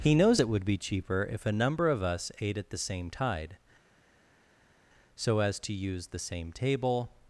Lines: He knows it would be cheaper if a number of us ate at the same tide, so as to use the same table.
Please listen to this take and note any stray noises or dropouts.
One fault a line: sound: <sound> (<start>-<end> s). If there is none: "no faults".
no faults